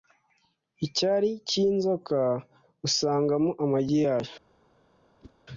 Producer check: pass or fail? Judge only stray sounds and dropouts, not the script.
fail